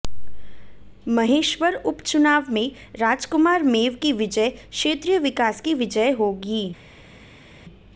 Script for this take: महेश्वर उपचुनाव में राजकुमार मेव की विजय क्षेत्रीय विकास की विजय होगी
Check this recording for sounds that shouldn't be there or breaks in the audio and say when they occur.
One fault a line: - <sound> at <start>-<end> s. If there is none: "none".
none